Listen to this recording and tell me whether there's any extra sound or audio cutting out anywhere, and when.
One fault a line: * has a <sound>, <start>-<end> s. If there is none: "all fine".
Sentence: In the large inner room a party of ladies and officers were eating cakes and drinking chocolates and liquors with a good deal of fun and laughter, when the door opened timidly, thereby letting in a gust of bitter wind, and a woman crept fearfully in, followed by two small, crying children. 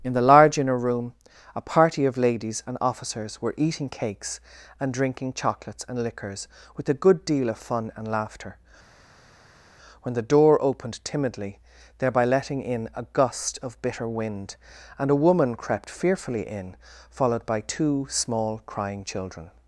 all fine